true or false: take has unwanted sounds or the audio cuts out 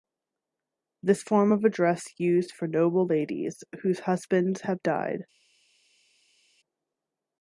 false